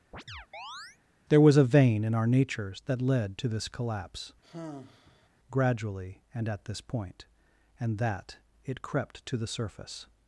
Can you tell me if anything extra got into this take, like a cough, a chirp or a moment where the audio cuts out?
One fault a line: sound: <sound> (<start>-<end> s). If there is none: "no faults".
sound: chirp (0.1-1.0 s)
sound: sigh (4.4-5.3 s)